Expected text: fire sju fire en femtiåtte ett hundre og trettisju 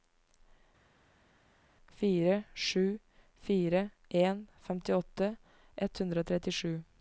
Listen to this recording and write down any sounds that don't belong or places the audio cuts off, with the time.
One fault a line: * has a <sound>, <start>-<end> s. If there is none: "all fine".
all fine